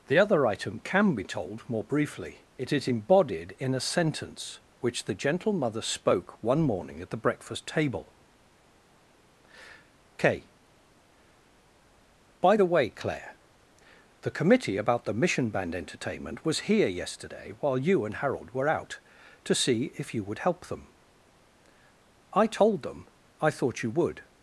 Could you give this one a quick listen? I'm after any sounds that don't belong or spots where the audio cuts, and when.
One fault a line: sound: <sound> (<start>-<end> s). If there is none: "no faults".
no faults